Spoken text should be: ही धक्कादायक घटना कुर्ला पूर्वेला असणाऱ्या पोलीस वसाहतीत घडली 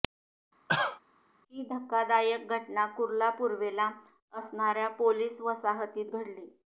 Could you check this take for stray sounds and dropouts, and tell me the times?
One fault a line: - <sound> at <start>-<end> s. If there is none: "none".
- cough at 0.7-1.0 s